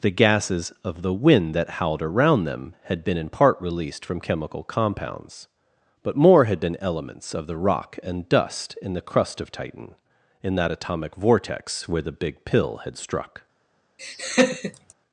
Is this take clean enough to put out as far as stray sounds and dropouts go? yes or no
no